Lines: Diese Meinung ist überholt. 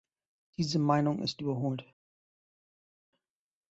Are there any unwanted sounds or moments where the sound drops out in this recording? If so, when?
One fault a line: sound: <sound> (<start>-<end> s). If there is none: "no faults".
no faults